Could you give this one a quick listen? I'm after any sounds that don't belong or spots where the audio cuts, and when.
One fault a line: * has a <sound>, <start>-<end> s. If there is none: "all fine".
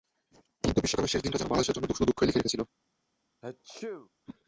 * has a sneeze, 3.4-4.1 s